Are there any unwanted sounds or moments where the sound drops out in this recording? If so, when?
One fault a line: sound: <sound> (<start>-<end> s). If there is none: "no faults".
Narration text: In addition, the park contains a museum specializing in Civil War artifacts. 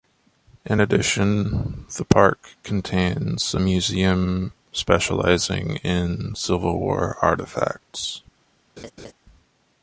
sound: laugh (8.8-9.1 s)